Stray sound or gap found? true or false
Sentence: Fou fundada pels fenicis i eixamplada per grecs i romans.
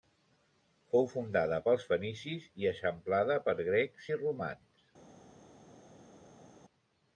false